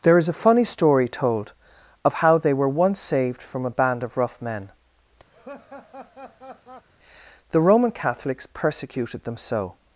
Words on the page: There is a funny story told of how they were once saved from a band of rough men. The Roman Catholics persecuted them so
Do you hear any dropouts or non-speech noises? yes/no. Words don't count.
yes